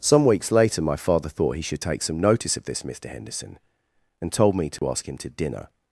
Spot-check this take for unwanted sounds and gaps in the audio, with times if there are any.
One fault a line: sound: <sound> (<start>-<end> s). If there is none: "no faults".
sound: dropout (4.8-4.8 s)